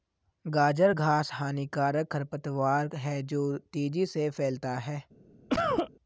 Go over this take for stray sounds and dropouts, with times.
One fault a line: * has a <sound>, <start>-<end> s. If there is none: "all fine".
* has a cough, 5.5-5.9 s